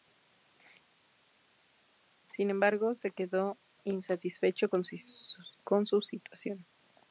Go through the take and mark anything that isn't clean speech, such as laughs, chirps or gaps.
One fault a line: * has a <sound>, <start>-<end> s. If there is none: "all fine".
all fine